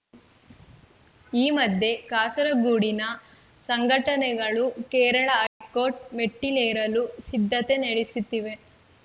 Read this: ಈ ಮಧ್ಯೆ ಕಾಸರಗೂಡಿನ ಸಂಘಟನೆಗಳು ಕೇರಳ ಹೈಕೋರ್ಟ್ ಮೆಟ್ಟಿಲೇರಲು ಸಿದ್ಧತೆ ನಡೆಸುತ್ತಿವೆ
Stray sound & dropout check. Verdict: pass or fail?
fail